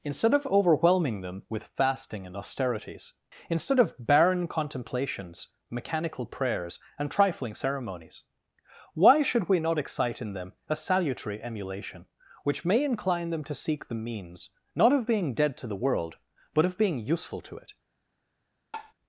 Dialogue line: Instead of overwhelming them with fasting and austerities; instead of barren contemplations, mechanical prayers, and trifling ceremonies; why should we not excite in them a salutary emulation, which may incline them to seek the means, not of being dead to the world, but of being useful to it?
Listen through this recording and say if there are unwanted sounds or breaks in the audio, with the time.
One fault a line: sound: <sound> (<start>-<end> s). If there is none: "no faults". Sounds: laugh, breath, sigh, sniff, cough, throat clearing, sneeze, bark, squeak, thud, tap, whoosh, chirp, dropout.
sound: tap (18.7-18.9 s)